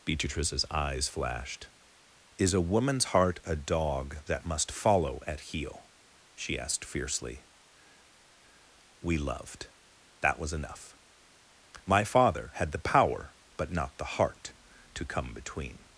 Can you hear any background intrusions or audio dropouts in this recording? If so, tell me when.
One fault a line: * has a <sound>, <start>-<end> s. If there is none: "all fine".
all fine